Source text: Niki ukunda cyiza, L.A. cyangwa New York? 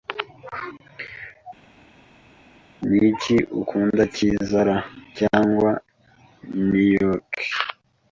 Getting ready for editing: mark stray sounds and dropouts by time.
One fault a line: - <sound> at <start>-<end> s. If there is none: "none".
none